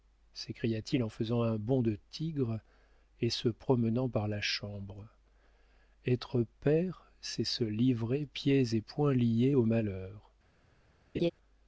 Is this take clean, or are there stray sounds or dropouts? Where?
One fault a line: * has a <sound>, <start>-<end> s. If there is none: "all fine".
* has a laugh, 11.1-11.3 s